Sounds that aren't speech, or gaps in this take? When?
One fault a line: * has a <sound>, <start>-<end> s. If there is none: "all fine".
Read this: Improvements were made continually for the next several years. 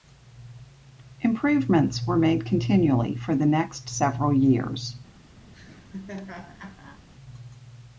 * has a laugh, 5.5-7.0 s